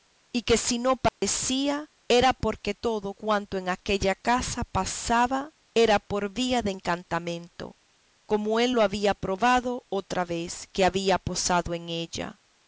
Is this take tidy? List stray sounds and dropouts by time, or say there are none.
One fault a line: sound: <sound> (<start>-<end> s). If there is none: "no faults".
sound: dropout (1.1-1.2 s)